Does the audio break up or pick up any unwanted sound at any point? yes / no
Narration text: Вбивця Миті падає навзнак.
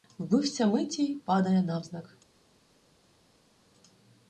no